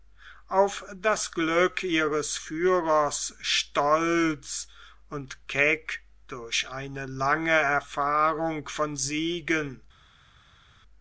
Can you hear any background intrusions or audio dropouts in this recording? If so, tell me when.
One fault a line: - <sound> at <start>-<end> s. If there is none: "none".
none